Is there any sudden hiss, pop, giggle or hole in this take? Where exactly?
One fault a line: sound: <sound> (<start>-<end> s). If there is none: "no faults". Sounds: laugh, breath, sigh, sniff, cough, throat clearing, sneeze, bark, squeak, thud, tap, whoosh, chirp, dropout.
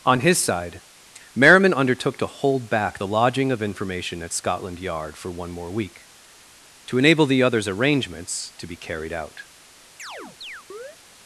sound: chirp (10.0-11.0 s)